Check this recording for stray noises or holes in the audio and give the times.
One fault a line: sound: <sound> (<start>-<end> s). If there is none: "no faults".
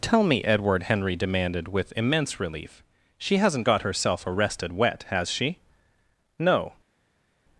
no faults